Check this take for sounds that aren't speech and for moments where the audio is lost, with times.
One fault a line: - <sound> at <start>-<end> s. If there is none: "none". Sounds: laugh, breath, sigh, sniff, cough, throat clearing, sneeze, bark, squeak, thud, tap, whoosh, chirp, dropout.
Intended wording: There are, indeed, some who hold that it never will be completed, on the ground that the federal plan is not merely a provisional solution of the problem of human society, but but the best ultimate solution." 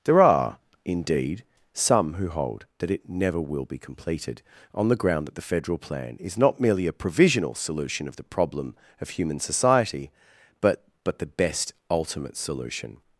none